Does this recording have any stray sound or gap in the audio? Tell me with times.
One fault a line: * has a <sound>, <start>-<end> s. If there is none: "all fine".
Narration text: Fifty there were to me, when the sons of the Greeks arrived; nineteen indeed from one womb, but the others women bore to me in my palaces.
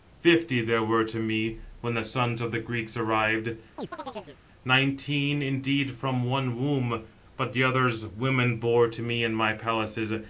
* has a chirp, 3.8-4.4 s